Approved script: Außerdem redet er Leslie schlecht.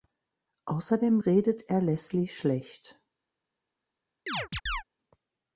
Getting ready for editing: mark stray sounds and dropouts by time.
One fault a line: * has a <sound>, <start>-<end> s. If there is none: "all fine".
* has a chirp, 4.3-4.8 s